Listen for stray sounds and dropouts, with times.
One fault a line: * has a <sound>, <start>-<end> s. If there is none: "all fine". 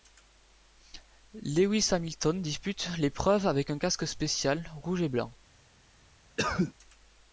* has a cough, 6.4-6.7 s